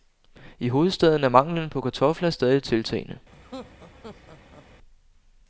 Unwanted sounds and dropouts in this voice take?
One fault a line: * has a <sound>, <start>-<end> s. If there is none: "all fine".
* has a laugh, 3.3-4.7 s